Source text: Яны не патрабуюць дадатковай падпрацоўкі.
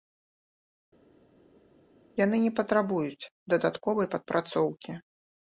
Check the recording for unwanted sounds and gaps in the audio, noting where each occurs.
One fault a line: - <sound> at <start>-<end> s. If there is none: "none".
none